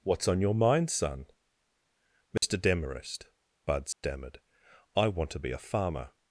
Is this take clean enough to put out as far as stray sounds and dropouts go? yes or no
no